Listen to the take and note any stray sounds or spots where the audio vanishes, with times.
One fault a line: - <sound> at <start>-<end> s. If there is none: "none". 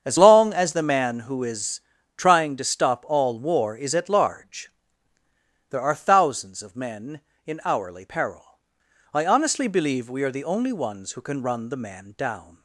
none